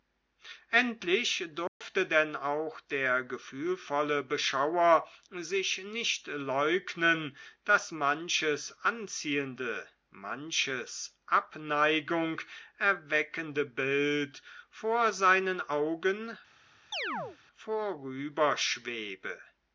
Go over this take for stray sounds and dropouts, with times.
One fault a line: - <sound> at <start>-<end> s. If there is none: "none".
- dropout at 1.7-1.8 s
- chirp at 16.9-17.4 s